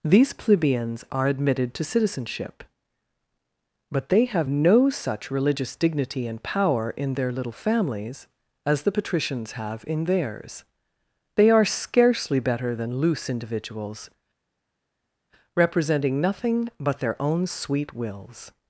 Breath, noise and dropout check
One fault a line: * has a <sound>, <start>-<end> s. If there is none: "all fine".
all fine